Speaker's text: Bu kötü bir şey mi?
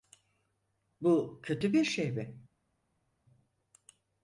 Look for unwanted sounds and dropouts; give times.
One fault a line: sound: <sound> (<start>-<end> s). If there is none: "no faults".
no faults